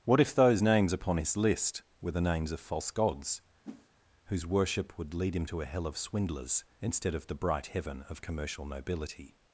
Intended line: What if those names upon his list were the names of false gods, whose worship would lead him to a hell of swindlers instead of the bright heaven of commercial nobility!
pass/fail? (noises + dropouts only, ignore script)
fail